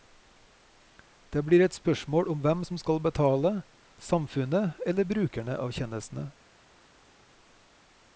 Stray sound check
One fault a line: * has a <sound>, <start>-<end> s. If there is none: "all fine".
all fine